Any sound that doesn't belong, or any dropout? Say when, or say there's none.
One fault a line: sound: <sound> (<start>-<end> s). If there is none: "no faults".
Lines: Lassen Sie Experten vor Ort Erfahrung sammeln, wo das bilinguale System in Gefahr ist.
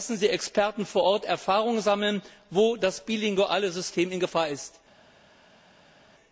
no faults